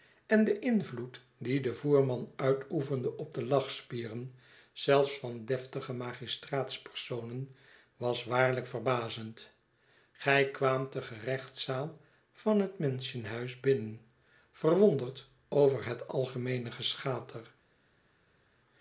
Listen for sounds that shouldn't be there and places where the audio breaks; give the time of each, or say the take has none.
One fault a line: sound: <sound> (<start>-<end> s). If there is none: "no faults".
no faults